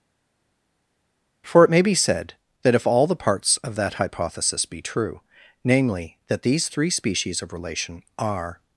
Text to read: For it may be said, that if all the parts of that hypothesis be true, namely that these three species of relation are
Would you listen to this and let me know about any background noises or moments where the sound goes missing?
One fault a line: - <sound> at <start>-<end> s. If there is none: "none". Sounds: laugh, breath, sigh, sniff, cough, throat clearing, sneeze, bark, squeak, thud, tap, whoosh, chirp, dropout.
none